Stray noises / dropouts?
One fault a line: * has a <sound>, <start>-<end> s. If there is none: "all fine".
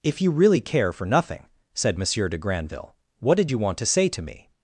all fine